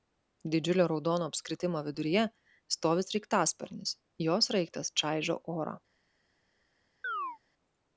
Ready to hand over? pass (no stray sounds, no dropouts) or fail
fail